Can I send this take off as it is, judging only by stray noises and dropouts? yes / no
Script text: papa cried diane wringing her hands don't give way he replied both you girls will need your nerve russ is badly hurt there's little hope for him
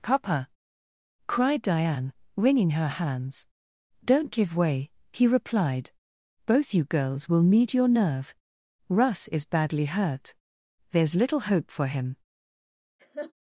no